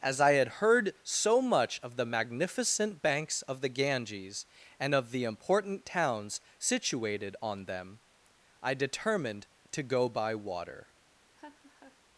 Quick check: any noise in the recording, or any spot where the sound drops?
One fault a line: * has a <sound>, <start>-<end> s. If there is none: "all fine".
* has a laugh, 11.3-12.0 s